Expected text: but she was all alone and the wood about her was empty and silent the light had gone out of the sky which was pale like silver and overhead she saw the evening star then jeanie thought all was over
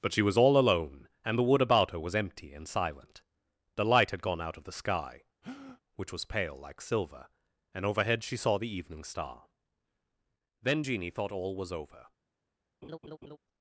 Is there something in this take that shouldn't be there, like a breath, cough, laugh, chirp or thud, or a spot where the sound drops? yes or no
yes